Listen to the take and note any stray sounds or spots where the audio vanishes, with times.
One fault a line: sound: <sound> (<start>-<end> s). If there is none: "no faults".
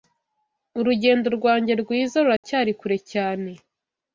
sound: dropout (2.4-2.4 s)